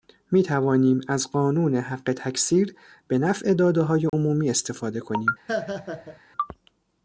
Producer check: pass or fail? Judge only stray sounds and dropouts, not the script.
fail